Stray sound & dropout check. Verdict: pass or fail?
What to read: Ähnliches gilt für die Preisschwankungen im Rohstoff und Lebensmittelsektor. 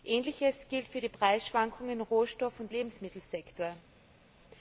pass